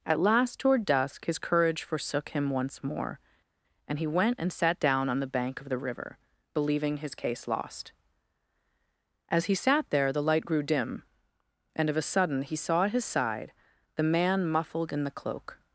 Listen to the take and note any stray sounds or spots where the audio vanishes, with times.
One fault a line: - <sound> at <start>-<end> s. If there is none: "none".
none